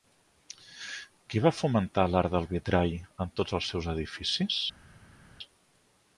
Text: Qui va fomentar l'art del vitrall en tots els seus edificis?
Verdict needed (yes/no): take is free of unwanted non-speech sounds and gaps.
yes